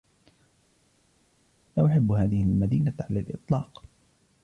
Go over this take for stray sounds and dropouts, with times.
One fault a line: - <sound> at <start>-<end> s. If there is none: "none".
none